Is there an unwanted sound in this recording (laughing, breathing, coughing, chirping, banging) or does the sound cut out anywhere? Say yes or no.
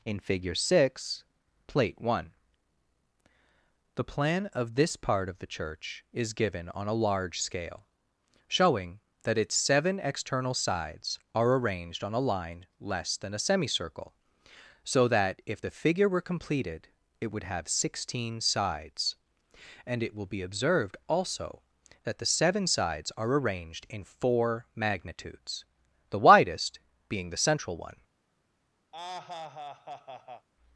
yes